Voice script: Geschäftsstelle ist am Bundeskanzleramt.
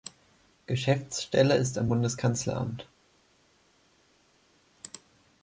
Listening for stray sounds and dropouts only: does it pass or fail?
pass